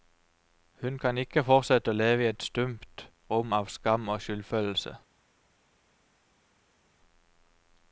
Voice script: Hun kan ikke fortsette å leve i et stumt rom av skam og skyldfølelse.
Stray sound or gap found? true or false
false